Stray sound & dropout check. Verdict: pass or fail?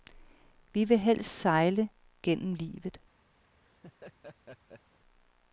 fail